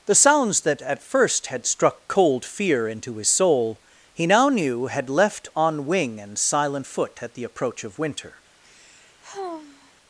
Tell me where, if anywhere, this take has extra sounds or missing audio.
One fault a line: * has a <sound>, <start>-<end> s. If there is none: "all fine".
* has a sigh, 8.6-9.9 s